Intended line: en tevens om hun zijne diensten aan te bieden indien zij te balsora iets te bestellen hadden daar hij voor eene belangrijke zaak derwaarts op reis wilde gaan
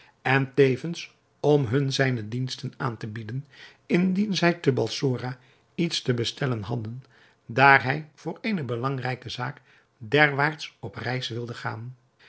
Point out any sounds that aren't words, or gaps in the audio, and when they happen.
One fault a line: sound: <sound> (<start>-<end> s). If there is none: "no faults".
no faults